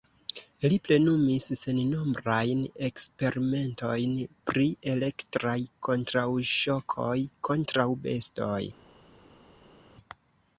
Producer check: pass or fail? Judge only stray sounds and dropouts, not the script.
pass